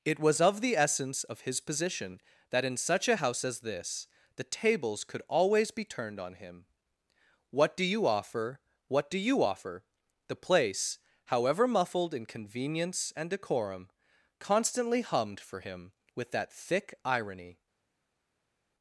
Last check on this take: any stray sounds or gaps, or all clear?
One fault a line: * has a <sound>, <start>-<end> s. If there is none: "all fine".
all fine